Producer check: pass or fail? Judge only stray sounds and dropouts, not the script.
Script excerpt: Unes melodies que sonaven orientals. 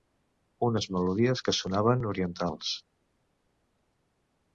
pass